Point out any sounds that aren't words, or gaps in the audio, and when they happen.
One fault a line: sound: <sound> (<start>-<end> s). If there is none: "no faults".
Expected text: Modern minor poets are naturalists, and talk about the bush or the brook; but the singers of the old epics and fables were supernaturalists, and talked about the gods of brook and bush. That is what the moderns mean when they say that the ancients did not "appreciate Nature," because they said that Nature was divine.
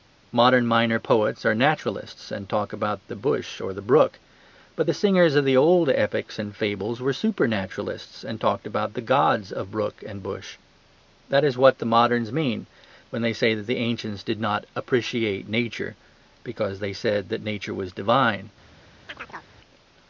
sound: chirp (19.1-19.5 s)